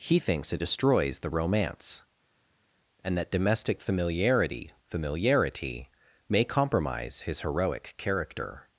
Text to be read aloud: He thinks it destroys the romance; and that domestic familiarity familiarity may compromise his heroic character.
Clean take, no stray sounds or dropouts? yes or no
yes